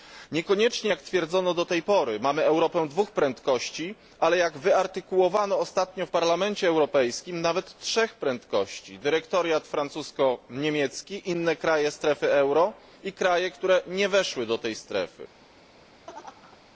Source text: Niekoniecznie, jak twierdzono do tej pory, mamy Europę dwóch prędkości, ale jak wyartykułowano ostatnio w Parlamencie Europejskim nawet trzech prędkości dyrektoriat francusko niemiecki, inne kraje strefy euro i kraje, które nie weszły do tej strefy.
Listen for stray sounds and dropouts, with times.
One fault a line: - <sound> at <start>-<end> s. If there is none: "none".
- laugh at 16.1-16.6 s